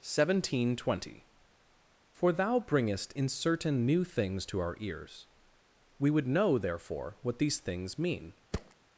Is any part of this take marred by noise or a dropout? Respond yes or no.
yes